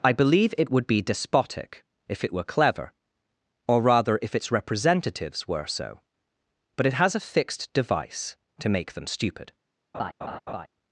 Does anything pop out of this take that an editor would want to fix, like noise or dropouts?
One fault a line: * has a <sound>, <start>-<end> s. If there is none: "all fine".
* has a laugh, 9.9-10.7 s